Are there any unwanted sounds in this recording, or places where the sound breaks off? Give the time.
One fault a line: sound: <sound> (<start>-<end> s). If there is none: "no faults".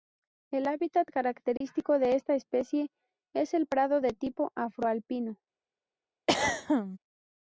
sound: dropout (1.6-1.6 s)
sound: throat clearing (6.3-7.0 s)